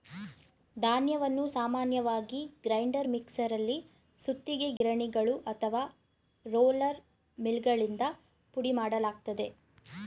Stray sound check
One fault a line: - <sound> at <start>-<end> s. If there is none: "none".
- dropout at 4.8-4.8 s